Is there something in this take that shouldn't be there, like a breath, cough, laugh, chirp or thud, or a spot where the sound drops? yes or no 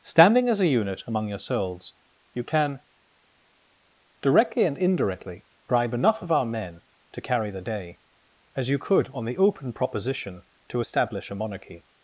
no